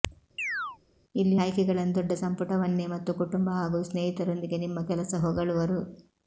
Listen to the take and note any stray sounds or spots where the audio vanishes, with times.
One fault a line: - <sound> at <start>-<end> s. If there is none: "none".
- chirp at 0.4-0.8 s